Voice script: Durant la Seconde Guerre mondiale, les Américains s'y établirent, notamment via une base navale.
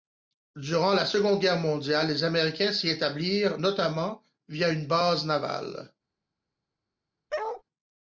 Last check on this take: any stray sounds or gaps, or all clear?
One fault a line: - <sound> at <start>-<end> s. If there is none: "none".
- bark at 7.3-7.6 s